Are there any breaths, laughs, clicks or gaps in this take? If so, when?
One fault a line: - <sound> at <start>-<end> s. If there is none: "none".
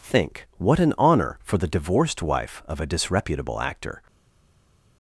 none